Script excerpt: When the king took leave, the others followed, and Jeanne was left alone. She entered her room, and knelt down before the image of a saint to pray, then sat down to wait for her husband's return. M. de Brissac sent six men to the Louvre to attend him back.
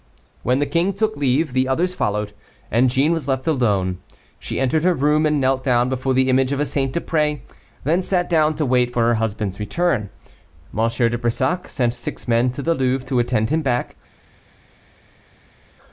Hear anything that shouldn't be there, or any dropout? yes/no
no